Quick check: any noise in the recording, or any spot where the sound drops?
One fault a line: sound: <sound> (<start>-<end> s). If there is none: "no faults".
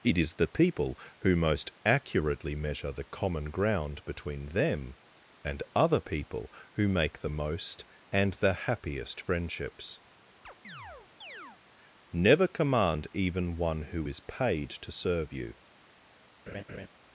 sound: chirp (10.4-11.6 s)
sound: laugh (16.5-16.9 s)